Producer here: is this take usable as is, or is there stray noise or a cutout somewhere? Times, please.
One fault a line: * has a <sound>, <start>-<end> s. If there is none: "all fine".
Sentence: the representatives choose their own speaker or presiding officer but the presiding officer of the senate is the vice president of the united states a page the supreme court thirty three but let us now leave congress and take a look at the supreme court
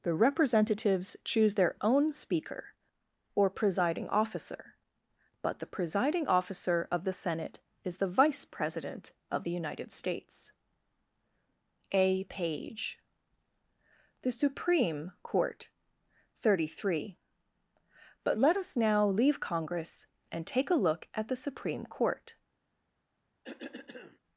* has a cough, 23.4-24.2 s